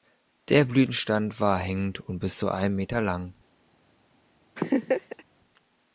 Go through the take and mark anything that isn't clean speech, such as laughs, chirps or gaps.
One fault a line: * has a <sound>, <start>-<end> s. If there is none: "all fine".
* has a laugh, 4.6-5.2 s